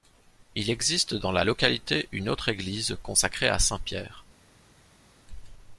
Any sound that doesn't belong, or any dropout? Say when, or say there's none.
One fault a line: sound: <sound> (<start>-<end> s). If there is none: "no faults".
no faults